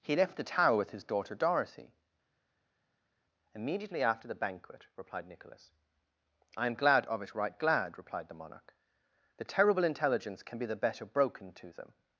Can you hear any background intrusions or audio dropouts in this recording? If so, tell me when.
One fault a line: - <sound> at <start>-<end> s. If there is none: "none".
none